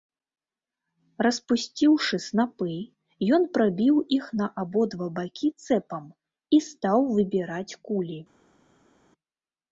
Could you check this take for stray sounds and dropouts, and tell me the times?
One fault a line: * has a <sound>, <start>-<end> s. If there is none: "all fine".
all fine